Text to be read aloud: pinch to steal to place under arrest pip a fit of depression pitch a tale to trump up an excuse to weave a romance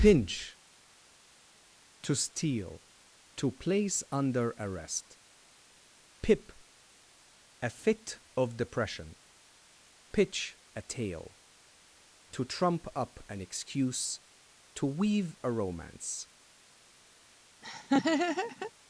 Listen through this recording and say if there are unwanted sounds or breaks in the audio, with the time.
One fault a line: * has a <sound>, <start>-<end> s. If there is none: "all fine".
* has a laugh, 17.6-18.7 s